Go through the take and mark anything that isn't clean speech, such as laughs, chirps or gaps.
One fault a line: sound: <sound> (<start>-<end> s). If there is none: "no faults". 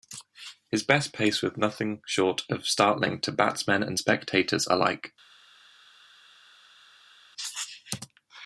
no faults